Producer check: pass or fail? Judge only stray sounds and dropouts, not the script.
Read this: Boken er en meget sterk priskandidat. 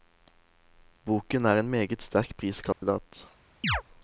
fail